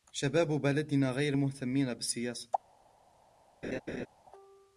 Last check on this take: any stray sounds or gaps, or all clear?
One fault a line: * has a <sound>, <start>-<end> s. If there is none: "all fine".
* has a laugh, 3.6-4.1 s